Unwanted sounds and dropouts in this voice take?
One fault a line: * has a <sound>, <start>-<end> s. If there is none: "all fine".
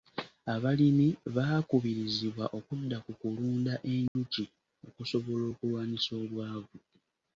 * has a dropout, 4.1-4.2 s